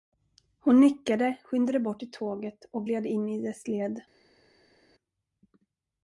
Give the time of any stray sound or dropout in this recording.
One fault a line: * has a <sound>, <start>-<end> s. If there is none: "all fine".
all fine